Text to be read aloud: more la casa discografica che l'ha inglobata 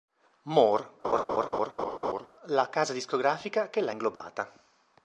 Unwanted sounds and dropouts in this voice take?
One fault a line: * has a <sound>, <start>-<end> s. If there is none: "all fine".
* has a laugh, 1.0-2.3 s
* has a dropout, 4.2-4.2 s